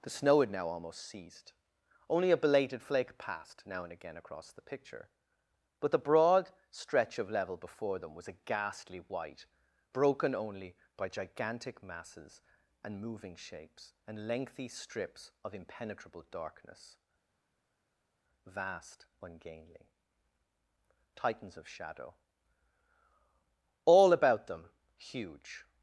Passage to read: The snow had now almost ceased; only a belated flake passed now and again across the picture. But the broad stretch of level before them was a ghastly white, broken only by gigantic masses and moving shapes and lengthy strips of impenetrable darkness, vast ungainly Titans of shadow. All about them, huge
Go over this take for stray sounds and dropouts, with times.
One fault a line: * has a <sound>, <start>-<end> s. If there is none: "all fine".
all fine